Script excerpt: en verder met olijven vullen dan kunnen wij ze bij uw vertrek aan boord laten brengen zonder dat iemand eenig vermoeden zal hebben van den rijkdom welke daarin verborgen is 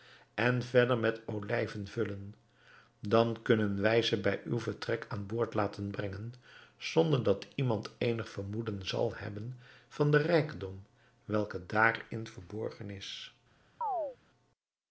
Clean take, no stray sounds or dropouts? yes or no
no